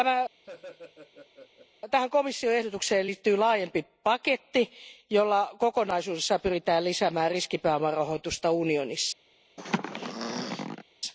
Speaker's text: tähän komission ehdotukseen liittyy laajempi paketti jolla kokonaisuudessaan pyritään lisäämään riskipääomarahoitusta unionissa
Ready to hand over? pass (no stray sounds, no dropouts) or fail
fail